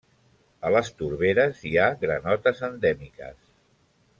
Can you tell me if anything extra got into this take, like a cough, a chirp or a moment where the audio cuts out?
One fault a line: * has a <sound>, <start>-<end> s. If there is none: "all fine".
all fine